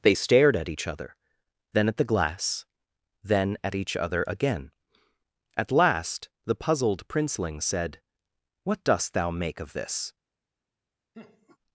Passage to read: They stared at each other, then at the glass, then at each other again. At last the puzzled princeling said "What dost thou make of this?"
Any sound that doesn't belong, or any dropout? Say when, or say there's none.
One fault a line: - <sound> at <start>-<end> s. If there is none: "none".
- laugh at 11.1-11.6 s